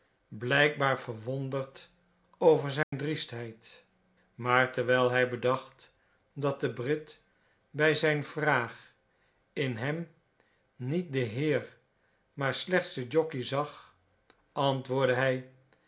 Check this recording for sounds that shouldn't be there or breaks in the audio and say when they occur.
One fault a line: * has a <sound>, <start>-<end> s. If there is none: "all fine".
* has a dropout, 2.8-2.9 s